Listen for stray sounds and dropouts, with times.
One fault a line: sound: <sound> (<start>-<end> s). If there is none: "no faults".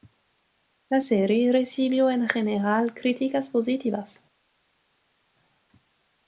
no faults